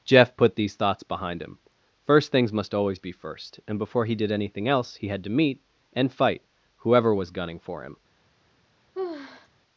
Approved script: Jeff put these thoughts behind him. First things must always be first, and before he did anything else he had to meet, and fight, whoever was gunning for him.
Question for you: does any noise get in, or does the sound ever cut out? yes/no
yes